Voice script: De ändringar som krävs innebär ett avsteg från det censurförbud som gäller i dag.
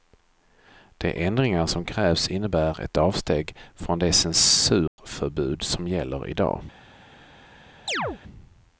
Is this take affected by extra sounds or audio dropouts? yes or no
yes